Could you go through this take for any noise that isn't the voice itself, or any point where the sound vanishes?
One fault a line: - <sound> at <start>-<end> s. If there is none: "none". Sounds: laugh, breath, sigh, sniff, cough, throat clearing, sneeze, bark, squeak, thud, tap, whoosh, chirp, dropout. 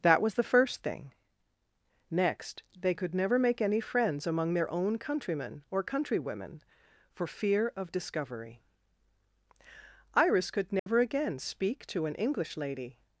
- dropout at 10.8-10.9 s